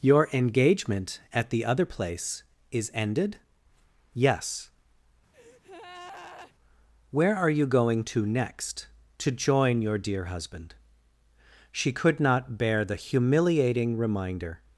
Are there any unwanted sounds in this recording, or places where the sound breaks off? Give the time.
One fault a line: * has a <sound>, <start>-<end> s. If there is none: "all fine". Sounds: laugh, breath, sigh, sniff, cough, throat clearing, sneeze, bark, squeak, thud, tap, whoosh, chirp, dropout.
* has a breath, 5.3-6.5 s